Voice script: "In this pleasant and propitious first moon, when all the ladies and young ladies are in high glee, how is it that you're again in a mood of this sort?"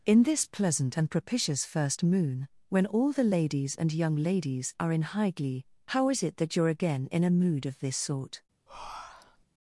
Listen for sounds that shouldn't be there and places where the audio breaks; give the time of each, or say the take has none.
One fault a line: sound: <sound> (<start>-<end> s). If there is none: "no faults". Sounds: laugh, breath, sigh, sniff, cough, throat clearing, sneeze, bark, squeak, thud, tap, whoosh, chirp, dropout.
sound: breath (8.7-9.5 s)